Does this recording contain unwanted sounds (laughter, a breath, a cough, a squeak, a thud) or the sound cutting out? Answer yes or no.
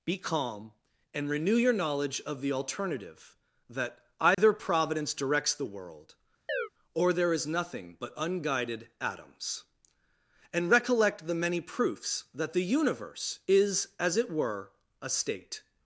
yes